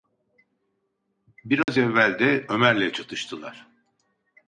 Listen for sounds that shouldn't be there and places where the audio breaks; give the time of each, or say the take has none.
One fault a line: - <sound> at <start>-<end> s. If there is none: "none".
- dropout at 1.6-1.7 s